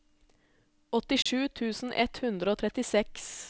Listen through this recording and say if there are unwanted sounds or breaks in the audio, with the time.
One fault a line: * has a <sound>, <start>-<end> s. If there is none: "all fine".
* has a dropout, 1.2-1.3 s